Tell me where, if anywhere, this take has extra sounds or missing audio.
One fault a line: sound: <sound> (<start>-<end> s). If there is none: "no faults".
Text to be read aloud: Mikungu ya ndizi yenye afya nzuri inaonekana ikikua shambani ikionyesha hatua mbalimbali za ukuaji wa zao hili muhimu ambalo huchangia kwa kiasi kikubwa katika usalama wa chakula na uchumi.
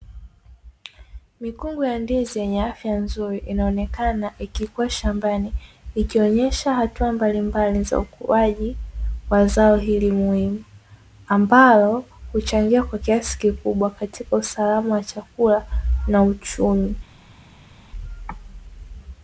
no faults